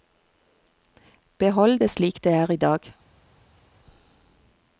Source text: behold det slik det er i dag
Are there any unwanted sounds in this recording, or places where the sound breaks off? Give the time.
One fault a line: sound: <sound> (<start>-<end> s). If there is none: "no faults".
no faults